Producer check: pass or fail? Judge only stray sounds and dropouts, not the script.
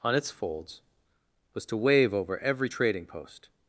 pass